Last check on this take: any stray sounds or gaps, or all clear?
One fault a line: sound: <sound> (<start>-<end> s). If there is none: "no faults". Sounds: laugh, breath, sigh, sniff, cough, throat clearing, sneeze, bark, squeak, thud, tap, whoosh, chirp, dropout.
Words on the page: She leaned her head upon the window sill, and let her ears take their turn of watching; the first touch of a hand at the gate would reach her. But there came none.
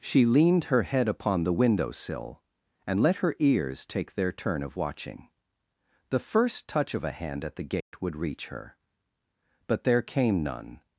sound: dropout (7.8-7.9 s)